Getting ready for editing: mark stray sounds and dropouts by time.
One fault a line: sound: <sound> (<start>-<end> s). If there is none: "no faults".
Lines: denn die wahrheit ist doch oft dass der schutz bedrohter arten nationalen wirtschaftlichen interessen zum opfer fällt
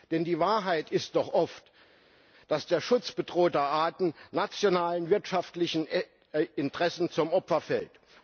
no faults